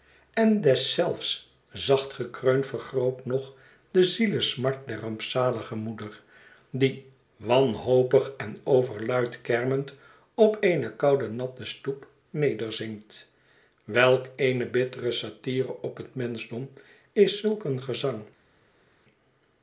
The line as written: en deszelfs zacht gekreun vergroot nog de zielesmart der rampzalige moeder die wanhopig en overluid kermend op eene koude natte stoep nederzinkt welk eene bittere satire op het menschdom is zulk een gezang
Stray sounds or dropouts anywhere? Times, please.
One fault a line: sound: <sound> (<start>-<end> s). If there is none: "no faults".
no faults